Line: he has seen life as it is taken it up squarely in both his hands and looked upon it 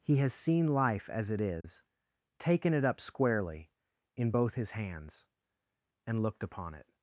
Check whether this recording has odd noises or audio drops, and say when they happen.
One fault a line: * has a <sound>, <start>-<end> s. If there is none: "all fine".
* has a dropout, 1.6-1.6 s